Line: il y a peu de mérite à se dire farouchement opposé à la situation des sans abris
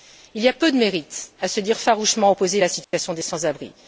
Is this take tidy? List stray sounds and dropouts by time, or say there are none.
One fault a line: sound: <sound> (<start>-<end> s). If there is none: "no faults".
sound: dropout (2.8-2.9 s)